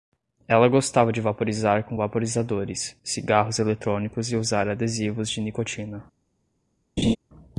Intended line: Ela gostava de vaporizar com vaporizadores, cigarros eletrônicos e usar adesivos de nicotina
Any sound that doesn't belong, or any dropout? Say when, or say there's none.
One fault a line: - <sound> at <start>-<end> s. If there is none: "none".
- laugh at 7.0-7.2 s